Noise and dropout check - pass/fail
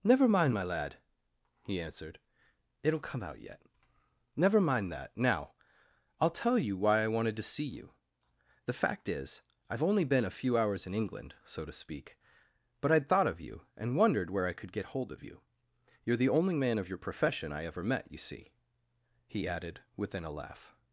pass